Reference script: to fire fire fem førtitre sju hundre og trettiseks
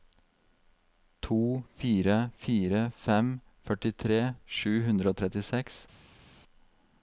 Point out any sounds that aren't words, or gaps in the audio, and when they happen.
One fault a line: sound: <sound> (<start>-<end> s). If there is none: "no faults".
no faults